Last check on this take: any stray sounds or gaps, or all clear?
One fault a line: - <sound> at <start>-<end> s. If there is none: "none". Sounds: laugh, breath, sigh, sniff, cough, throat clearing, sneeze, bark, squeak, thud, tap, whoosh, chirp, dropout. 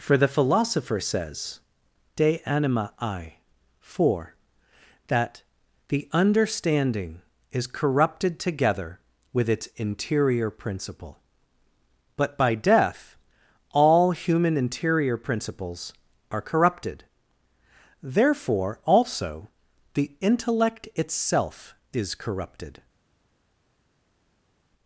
none